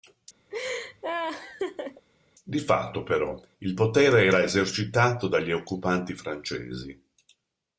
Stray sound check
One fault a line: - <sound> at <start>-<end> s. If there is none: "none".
- laugh at 0.5-2.1 s